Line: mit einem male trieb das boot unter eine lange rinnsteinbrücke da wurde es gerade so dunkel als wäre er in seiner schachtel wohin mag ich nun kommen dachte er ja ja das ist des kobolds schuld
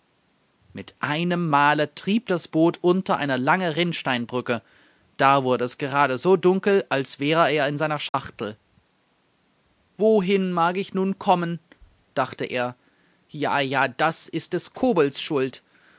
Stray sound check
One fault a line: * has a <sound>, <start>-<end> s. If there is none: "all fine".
* has a dropout, 8.1-8.1 s